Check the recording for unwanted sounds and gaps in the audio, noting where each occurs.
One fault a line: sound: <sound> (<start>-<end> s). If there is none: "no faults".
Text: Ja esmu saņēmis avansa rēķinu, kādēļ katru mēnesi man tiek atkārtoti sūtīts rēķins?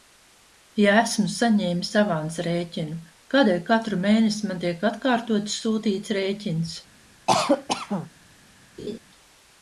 sound: cough (7.3-8.1 s)
sound: laugh (8.8-9.0 s)